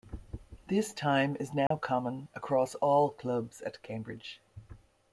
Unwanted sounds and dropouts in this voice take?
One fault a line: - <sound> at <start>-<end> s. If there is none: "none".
- dropout at 1.7-1.7 s